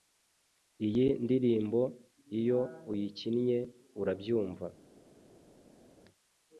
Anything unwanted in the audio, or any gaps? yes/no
no